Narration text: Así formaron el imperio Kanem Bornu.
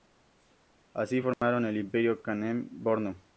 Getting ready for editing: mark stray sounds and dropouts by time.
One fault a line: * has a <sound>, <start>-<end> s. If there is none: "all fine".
* has a dropout, 1.3-1.4 s